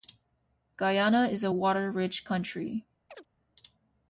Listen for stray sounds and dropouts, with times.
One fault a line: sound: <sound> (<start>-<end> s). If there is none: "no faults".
sound: chirp (3.1-3.3 s)